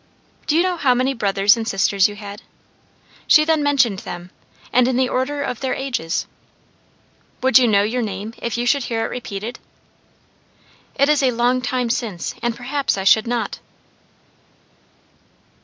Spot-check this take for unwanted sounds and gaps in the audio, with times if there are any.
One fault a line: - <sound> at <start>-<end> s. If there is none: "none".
none